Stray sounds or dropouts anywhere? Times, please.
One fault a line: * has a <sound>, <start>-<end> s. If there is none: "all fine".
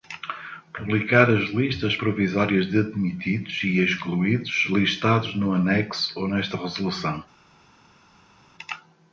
all fine